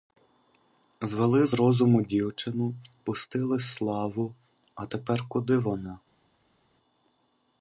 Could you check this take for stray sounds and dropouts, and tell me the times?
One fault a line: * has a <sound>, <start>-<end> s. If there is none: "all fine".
all fine